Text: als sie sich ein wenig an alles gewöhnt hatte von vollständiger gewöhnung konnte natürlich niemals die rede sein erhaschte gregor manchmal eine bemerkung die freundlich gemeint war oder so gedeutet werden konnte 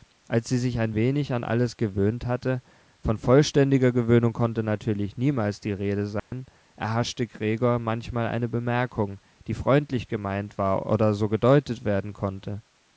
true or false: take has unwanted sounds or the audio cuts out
true